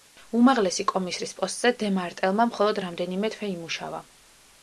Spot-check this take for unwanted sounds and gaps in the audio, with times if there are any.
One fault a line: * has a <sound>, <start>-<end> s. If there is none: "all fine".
all fine